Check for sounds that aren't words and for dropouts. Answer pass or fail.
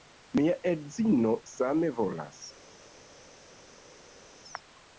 pass